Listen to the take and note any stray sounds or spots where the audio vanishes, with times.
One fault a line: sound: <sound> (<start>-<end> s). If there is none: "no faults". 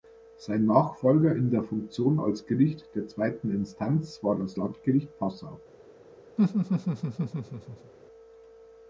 sound: laugh (6.4-7.9 s)